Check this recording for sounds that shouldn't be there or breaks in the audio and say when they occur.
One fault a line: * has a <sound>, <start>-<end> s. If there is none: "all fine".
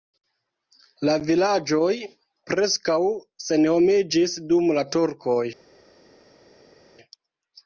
all fine